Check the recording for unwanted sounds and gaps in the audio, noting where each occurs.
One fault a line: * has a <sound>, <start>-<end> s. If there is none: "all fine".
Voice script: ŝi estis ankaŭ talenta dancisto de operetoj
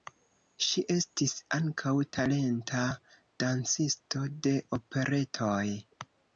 all fine